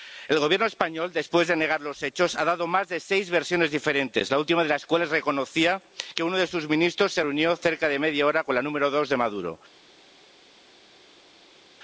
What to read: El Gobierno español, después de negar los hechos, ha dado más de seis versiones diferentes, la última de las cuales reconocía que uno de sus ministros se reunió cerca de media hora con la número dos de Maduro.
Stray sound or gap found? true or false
false